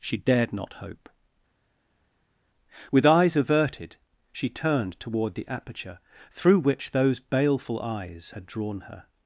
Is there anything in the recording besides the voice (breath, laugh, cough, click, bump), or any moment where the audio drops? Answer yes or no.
no